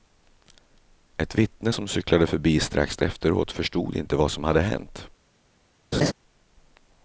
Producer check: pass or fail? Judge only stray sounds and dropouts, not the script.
fail